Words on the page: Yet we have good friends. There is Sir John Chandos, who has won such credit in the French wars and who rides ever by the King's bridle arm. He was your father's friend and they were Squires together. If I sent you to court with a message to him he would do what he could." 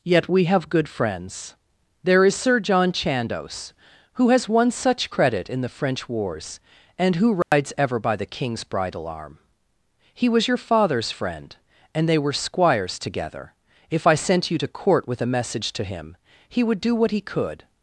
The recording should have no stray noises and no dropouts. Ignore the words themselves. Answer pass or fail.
fail